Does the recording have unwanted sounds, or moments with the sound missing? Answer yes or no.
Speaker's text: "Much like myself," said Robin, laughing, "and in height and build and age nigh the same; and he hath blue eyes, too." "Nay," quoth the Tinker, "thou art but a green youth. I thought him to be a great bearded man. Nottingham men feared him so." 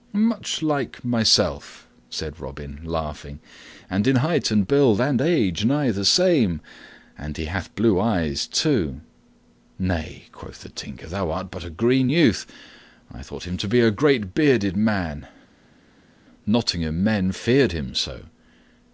no